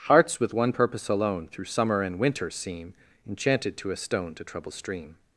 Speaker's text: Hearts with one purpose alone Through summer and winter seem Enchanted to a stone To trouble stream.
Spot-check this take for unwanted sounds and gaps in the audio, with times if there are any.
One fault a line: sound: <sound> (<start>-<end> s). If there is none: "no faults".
no faults